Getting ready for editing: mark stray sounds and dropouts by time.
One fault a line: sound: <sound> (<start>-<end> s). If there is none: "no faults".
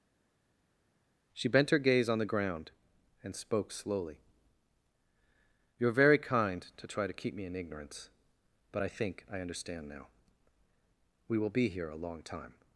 no faults